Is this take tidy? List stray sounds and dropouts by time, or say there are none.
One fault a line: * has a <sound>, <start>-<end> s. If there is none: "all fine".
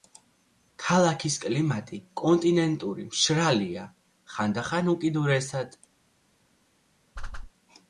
* has a whoosh, 7.2-7.5 s